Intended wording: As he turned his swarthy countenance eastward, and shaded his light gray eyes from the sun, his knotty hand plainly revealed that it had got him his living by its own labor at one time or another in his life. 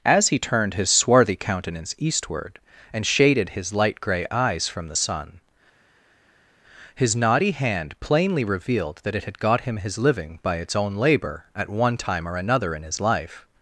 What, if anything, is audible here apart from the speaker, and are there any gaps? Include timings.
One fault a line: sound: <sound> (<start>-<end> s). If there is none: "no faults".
no faults